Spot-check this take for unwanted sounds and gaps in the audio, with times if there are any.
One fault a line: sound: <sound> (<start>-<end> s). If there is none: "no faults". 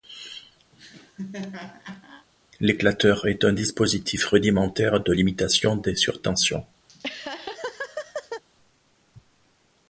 sound: laugh (0.7-2.3 s)
sound: laugh (6.9-8.4 s)